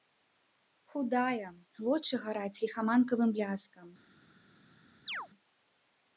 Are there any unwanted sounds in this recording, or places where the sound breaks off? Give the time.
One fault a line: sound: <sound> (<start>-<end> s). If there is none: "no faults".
sound: chirp (5.1-5.3 s)